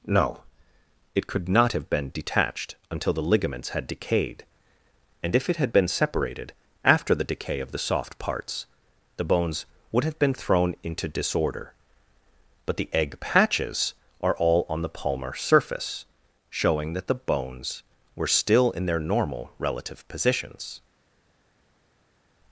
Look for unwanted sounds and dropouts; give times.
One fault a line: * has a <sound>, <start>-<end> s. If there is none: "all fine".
all fine